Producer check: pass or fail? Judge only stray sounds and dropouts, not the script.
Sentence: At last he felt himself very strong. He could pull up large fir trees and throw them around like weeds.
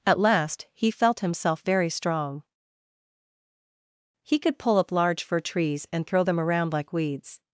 pass